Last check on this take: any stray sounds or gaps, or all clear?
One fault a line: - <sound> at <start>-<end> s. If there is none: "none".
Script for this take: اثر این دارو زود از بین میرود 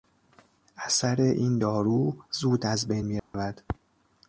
- dropout at 3.2-3.3 s